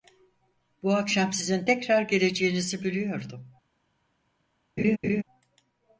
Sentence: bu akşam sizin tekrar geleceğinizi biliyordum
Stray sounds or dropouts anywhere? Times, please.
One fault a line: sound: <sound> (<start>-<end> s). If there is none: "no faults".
sound: laugh (4.8-5.2 s)